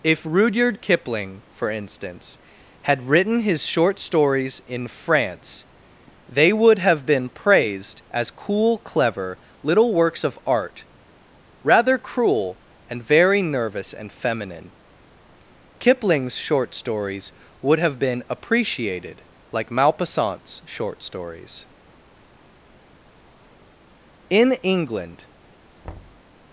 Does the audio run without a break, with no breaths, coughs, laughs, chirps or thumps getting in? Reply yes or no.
no